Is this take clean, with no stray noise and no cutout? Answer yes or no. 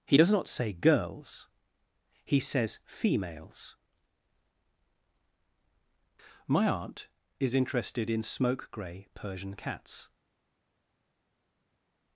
yes